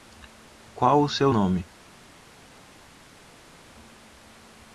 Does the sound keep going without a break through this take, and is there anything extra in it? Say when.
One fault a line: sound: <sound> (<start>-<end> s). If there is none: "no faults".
no faults